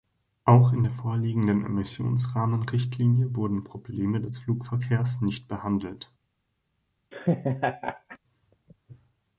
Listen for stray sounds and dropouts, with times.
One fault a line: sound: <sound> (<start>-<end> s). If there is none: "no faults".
sound: laugh (7.1-8.2 s)